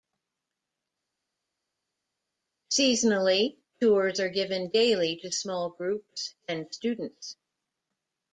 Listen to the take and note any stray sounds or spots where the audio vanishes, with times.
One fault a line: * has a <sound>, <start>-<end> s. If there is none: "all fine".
all fine